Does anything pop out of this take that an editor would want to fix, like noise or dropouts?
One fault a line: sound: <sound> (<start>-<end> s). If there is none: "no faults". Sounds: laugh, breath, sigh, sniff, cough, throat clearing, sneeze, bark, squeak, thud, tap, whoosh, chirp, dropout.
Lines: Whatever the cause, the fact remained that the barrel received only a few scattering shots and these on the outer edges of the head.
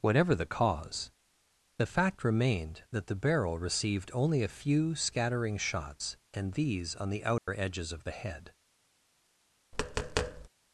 sound: dropout (7.4-7.5 s)
sound: tap (9.7-10.5 s)